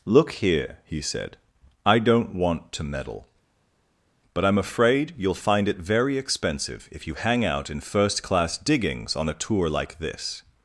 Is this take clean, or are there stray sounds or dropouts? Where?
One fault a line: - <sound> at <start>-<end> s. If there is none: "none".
none